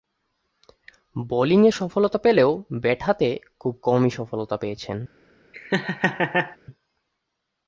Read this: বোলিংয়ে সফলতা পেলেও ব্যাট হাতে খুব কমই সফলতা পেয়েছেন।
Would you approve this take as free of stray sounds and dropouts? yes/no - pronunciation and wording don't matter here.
no